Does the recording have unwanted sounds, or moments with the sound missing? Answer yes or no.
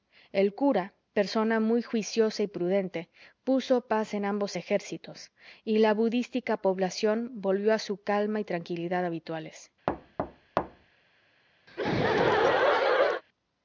yes